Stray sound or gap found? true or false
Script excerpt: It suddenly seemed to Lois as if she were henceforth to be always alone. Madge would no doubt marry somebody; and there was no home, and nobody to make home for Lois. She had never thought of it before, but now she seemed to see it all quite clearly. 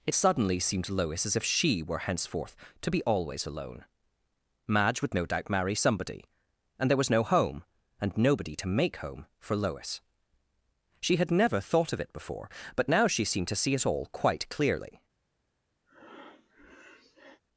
true